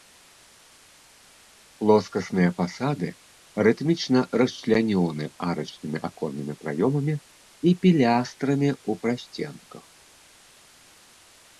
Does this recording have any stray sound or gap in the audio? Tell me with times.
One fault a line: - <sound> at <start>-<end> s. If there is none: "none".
none